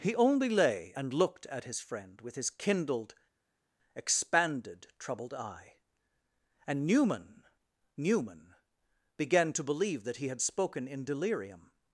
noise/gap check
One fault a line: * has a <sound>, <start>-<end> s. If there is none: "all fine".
all fine